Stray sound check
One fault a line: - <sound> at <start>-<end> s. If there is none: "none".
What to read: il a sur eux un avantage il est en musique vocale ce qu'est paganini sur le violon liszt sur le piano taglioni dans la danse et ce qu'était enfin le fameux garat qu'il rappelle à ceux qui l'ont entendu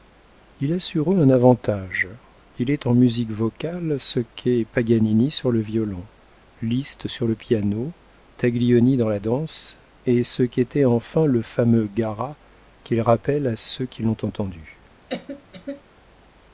- cough at 15.1-15.8 s